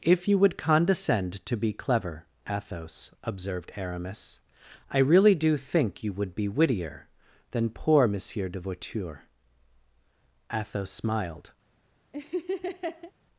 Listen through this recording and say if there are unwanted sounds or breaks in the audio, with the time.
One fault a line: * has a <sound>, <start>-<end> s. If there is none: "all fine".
* has a laugh, 12.1-13.1 s